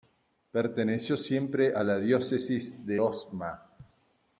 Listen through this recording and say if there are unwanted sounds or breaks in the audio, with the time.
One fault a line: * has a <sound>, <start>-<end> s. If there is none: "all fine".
all fine